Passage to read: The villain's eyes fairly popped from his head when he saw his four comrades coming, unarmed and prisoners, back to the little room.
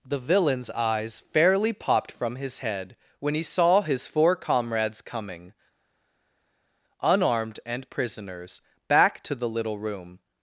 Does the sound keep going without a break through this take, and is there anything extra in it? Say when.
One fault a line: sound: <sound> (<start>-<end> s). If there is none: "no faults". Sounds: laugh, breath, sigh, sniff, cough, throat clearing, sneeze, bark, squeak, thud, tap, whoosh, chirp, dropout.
no faults